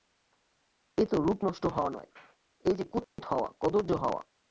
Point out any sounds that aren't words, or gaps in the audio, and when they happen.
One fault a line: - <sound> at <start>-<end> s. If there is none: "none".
- dropout at 3.0-3.2 s